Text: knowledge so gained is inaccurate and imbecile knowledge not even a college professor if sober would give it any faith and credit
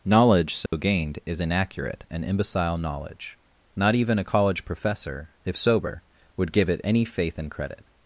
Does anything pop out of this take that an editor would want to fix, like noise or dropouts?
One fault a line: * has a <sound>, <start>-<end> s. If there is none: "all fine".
* has a dropout, 0.7-0.7 s